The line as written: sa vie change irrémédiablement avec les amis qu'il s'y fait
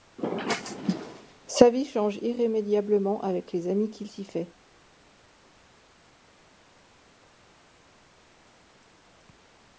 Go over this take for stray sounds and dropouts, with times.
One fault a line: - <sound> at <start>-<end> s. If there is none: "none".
none